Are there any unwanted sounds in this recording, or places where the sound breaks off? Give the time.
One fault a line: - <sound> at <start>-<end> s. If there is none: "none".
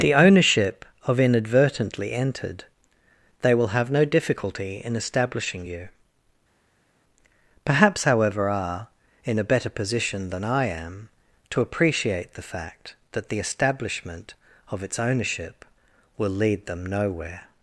none